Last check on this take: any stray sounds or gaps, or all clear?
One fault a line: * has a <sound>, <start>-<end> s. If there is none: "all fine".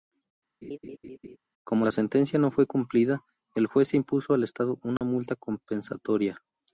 * has a laugh, 0.6-1.4 s
* has a dropout, 5.0-5.0 s